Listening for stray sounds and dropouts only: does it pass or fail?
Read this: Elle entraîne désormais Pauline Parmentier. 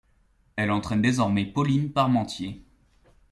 pass